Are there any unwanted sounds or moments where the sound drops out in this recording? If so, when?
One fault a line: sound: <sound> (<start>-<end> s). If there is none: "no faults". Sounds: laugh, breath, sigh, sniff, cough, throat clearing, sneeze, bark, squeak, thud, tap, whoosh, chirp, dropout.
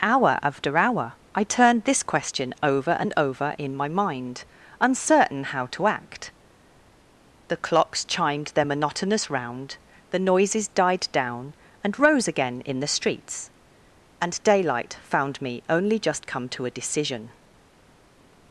no faults